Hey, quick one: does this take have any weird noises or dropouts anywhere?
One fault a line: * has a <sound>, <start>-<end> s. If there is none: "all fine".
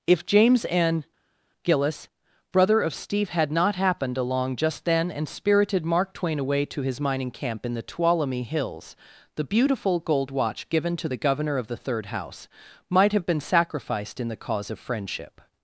all fine